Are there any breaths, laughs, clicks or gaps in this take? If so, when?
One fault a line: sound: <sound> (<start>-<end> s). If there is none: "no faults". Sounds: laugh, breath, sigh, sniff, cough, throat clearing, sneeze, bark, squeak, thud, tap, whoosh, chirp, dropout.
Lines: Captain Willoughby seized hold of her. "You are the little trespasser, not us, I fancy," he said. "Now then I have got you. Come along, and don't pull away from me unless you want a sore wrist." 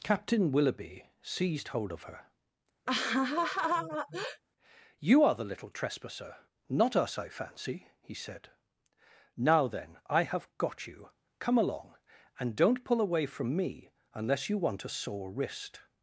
sound: laugh (2.9-4.4 s)